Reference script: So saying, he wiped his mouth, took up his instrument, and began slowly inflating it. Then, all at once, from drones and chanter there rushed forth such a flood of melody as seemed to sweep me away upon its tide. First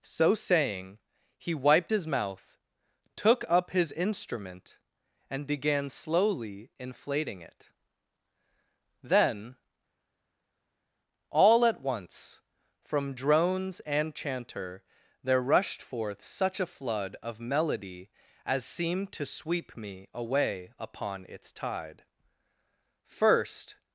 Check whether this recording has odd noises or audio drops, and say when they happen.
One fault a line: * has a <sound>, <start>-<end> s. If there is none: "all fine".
all fine